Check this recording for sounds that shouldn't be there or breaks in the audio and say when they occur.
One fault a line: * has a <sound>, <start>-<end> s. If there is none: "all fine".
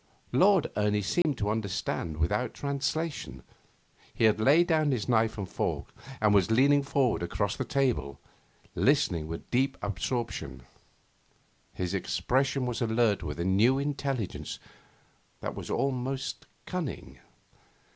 * has a dropout, 1.2-1.2 s